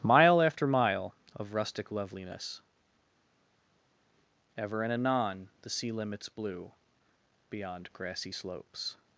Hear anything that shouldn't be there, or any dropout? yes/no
no